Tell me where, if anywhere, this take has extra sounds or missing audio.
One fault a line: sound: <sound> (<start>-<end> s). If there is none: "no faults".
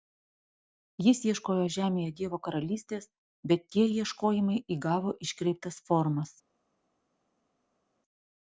no faults